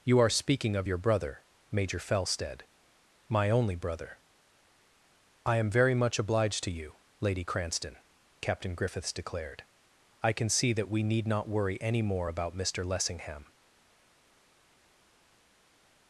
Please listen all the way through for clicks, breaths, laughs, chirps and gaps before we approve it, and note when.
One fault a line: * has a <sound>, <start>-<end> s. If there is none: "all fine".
all fine